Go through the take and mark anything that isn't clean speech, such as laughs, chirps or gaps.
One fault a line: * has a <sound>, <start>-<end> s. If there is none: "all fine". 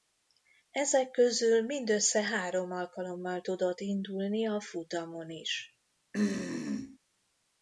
* has a throat clearing, 6.1-7.0 s